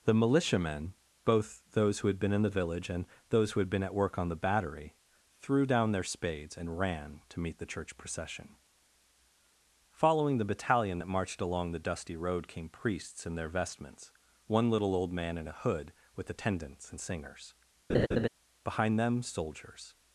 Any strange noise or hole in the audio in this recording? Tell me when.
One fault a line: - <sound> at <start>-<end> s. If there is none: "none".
- laugh at 17.9-18.3 s